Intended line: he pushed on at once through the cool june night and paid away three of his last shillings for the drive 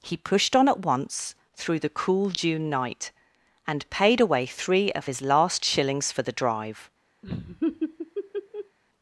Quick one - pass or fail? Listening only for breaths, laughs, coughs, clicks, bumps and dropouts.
fail